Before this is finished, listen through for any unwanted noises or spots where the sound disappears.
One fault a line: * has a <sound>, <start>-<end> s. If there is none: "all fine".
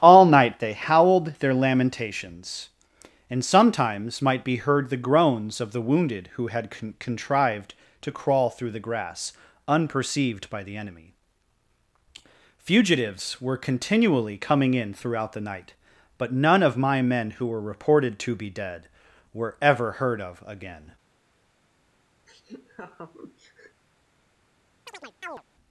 * has a laugh, 22.3-23.8 s
* has a chirp, 24.9-25.4 s